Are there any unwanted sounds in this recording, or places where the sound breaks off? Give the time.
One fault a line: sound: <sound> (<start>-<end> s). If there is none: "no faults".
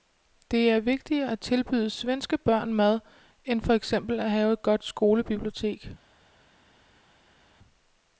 no faults